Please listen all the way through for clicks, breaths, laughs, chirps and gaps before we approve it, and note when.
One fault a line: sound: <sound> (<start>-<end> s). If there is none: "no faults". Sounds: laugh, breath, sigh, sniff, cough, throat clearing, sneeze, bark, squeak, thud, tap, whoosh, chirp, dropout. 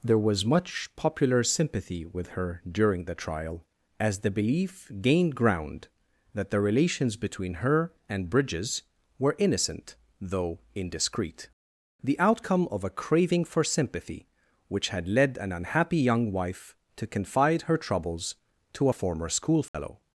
sound: dropout (19.7-19.7 s)